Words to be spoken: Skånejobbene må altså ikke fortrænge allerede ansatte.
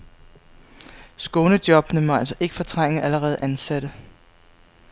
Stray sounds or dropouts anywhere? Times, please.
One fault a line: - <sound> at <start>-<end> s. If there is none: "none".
none